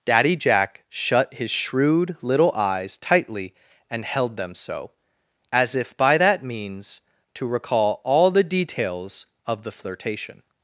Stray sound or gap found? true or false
false